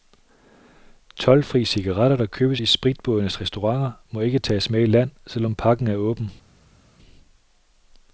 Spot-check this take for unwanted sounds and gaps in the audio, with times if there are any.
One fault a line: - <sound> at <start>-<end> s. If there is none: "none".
none